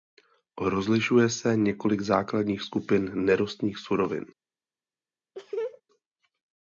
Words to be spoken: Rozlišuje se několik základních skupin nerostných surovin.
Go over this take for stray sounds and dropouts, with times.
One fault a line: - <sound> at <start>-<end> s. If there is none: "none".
- laugh at 5.3-5.8 s